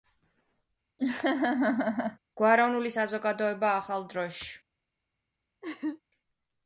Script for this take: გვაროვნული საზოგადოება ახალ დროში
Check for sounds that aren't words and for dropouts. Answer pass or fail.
fail